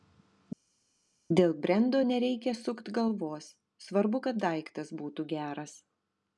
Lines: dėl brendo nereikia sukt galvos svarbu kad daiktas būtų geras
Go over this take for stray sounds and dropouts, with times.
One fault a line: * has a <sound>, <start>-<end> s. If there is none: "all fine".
all fine